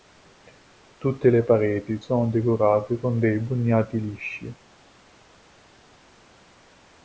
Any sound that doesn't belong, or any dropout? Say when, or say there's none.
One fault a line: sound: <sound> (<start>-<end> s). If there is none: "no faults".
no faults